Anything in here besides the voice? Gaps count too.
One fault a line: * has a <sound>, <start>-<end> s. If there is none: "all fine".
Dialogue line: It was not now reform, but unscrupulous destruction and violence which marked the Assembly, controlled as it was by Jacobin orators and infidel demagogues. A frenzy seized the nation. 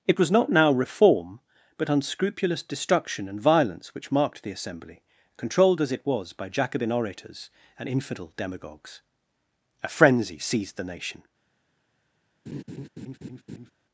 * has a laugh, 12.5-13.7 s